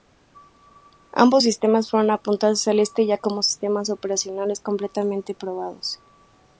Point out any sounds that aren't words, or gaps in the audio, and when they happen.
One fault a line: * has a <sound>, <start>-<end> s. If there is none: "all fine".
all fine